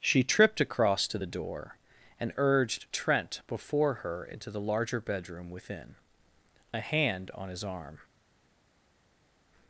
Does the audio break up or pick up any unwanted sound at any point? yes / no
no